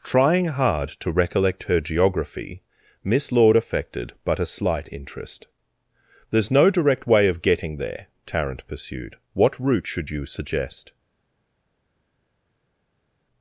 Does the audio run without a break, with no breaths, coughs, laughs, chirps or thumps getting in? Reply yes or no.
yes